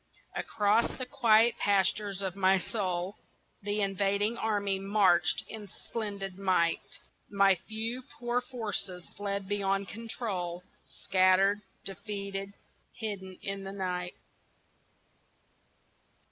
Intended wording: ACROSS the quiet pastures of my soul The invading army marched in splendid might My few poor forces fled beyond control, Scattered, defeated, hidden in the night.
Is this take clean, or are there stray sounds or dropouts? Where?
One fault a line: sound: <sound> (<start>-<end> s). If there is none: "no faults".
no faults